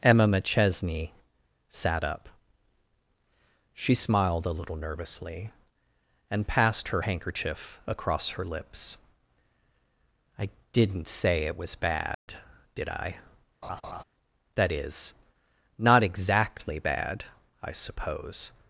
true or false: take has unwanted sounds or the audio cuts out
true